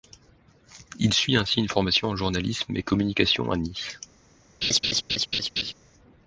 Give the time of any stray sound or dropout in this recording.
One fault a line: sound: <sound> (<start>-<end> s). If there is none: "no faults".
sound: laugh (4.6-5.7 s)